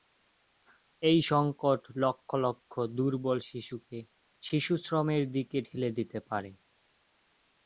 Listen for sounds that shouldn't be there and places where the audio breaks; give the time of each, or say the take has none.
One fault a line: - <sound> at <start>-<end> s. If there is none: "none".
none